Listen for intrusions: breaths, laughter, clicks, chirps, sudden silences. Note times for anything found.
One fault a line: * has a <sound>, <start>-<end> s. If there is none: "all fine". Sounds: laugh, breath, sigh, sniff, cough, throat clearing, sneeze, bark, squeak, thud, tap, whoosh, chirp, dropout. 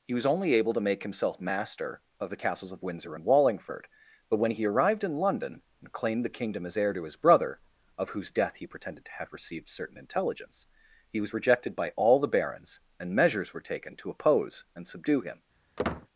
* has a squeak, 15.8-16.1 s